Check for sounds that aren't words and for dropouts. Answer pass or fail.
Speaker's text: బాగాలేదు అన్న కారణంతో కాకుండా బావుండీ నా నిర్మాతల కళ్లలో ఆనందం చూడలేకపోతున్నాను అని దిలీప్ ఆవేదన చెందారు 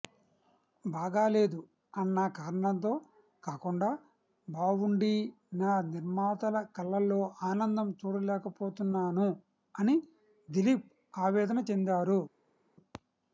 pass